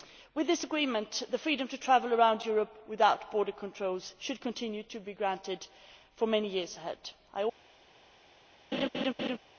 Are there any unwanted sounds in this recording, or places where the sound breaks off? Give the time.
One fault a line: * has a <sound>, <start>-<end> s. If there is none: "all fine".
* has a laugh, 8.7-9.4 s